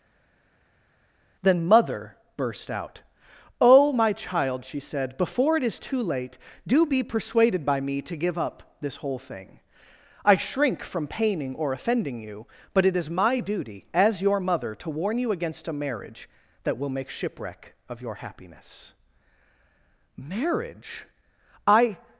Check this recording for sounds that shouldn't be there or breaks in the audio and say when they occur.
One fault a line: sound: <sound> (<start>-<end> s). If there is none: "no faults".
no faults